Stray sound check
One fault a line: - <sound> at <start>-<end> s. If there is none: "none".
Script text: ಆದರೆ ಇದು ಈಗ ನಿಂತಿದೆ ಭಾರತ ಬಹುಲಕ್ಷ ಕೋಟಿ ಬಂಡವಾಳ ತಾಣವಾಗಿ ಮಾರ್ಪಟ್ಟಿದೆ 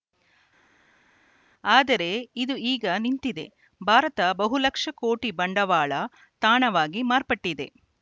none